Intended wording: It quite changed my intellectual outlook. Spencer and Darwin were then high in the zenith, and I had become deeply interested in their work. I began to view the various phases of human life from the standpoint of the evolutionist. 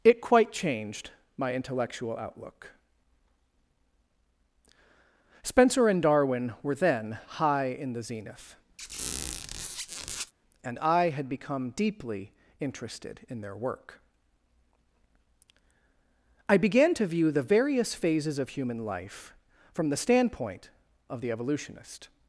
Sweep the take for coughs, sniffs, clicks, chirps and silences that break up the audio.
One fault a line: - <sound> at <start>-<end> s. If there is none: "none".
- squeak at 8.8-10.3 s